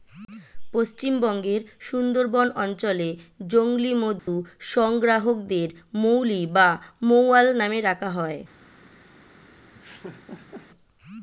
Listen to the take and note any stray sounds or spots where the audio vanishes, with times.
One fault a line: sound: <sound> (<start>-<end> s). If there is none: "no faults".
sound: dropout (4.2-4.3 s)
sound: laugh (9.7-10.7 s)